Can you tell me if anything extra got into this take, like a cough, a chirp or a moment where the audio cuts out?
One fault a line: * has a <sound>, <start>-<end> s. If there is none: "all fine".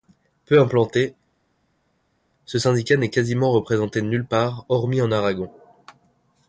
all fine